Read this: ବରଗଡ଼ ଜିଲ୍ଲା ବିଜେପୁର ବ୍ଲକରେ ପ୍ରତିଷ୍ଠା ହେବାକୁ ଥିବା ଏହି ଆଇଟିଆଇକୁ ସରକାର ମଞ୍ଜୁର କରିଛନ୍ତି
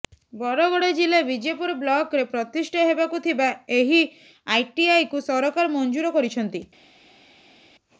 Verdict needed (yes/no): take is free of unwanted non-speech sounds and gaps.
yes